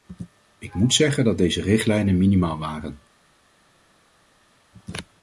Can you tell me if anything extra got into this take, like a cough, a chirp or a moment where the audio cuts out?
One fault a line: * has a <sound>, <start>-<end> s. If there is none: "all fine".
all fine